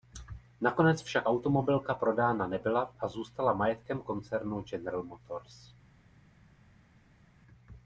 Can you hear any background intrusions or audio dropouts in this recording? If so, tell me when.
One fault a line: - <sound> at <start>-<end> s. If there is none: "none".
none